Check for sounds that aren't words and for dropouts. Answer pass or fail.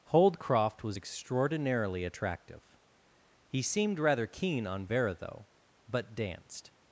pass